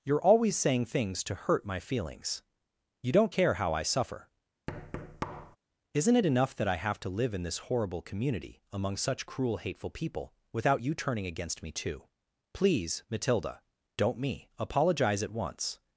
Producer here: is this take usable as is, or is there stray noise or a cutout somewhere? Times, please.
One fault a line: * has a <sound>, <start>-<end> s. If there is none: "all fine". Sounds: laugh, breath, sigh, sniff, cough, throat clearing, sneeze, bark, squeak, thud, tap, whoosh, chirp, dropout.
* has a thud, 4.7-5.6 s